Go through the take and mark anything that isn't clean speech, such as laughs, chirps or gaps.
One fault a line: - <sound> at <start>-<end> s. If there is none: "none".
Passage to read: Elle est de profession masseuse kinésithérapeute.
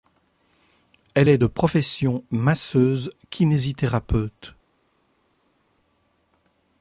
none